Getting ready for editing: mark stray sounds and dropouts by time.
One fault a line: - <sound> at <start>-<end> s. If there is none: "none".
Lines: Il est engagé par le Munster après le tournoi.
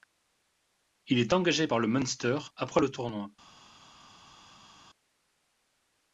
none